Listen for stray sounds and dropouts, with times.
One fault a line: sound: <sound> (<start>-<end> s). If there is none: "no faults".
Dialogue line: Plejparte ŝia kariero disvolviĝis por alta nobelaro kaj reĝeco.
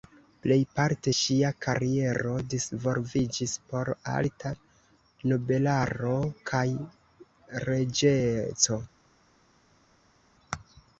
no faults